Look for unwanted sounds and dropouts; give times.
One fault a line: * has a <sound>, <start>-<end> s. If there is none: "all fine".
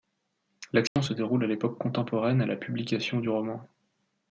* has a dropout, 0.9-1.0 s